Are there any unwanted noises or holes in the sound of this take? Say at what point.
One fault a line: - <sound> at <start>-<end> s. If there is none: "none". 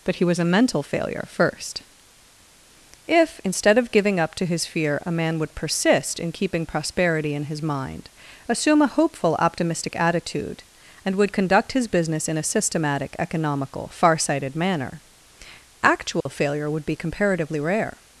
- dropout at 16.2-16.3 s